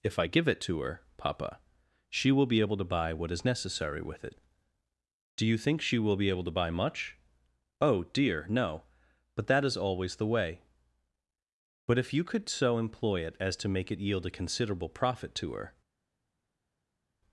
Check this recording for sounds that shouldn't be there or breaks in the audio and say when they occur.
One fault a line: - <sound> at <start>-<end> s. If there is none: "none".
none